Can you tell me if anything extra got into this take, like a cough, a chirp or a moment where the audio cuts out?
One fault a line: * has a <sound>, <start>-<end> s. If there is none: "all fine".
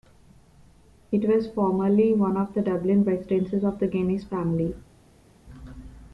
all fine